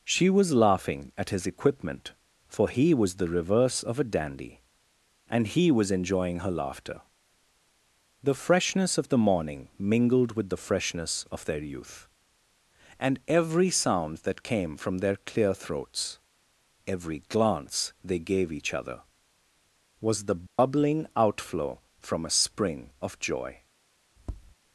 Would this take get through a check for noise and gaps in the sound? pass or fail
fail